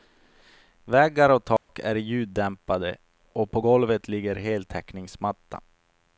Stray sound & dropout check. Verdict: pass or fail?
fail